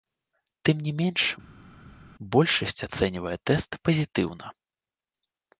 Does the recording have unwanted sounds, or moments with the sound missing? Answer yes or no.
no